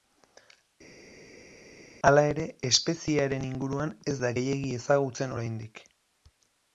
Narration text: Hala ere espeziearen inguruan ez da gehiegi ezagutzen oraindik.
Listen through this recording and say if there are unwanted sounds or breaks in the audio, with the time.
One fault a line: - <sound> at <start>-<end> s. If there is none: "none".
none